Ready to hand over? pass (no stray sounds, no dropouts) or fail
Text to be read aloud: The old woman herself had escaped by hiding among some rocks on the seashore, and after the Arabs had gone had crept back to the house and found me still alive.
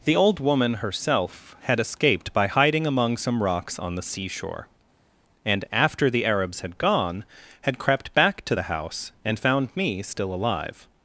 pass